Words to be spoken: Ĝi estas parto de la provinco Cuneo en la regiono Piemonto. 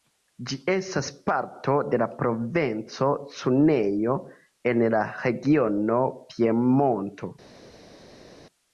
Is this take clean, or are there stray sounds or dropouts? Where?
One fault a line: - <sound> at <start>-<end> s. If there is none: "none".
none